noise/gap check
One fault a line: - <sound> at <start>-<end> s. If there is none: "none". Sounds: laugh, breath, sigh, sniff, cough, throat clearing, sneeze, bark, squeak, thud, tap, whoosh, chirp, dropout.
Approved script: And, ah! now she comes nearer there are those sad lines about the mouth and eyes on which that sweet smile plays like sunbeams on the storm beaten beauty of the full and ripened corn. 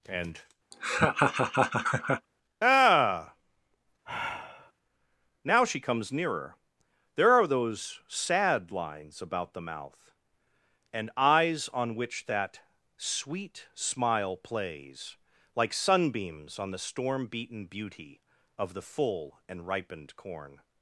- laugh at 0.7-2.3 s
- sigh at 4.1-4.7 s